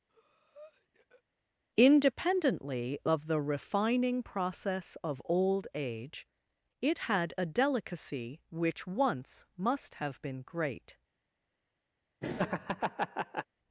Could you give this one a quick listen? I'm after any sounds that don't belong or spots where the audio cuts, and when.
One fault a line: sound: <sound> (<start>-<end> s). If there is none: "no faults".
sound: breath (0.1-1.2 s)
sound: laugh (12.2-13.5 s)